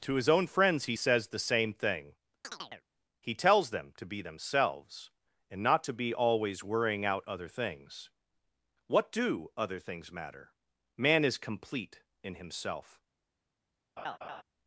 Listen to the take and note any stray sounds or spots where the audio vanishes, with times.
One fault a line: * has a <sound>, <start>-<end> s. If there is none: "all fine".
* has a chirp, 2.4-2.8 s
* has a laugh, 14.0-14.4 s